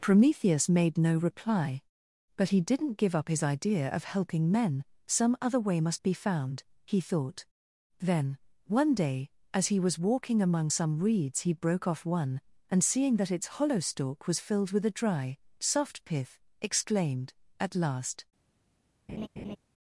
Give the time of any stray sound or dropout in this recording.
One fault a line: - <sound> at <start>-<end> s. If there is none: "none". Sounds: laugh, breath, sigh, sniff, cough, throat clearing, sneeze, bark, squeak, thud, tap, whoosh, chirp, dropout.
- laugh at 19.1-19.6 s